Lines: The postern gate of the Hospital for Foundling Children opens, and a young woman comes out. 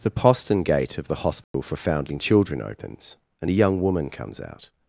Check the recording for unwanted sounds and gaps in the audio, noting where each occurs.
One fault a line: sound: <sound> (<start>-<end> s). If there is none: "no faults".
sound: dropout (1.4-1.5 s)